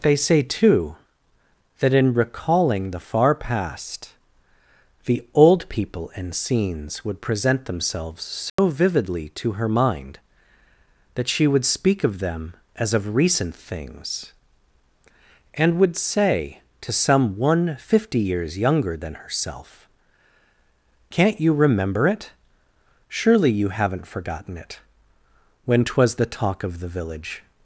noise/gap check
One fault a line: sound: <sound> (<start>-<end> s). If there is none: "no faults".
sound: dropout (8.5-8.6 s)